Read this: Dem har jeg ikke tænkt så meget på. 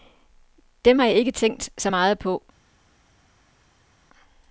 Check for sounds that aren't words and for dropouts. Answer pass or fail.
pass